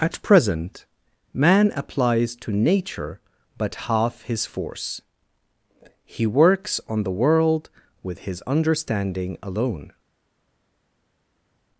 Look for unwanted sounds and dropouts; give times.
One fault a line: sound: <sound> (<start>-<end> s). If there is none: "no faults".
no faults